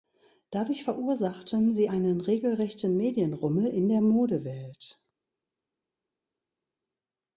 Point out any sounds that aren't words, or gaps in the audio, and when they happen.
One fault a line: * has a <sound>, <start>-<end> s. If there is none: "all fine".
all fine